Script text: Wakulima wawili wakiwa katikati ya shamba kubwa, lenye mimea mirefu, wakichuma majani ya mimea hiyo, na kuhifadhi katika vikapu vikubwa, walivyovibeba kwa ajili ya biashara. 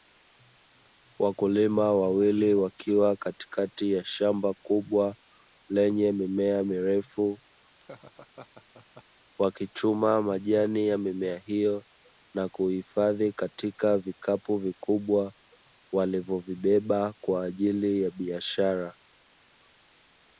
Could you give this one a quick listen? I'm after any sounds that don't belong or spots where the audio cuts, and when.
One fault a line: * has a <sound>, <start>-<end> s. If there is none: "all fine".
* has a laugh, 7.8-9.0 s